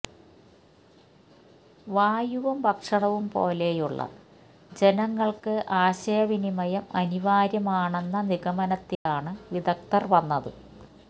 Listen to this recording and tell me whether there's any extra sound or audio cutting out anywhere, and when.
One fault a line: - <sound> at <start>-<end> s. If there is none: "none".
- dropout at 8.9-9.1 s